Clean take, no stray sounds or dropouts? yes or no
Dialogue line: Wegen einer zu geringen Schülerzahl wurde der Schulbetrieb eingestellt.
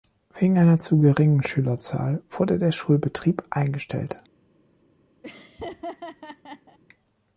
no